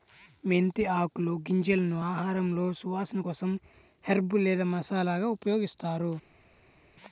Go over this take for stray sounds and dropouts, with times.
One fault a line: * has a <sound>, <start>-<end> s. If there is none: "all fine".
all fine